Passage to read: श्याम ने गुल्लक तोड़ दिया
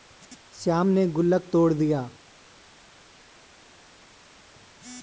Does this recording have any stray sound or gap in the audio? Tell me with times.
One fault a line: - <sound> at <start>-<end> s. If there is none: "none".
none